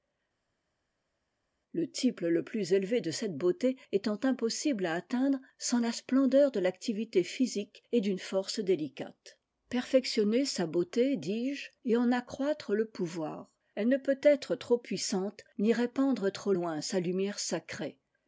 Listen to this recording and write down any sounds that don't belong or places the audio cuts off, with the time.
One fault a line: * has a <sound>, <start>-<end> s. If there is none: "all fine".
all fine